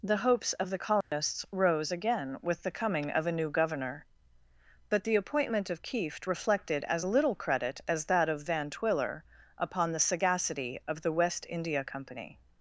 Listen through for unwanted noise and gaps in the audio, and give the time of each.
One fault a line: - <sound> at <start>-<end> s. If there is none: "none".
- dropout at 1.0-1.1 s